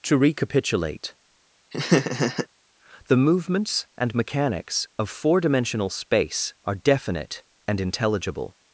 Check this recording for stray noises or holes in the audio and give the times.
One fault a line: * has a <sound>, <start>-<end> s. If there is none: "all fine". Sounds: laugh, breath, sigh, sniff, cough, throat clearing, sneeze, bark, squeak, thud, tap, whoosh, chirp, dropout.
* has a laugh, 1.7-2.5 s